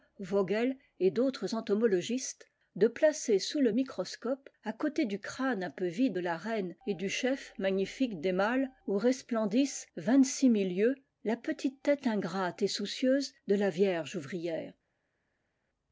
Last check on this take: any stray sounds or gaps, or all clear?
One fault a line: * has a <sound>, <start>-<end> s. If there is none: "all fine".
all fine